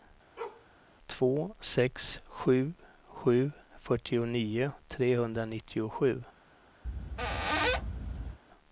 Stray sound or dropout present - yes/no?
yes